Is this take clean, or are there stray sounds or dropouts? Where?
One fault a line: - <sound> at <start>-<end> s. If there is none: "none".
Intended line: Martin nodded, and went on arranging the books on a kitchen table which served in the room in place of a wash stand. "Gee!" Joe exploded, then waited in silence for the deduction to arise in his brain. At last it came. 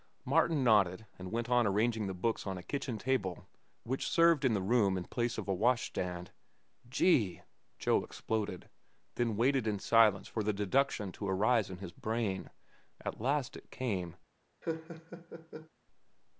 - laugh at 14.6-15.7 s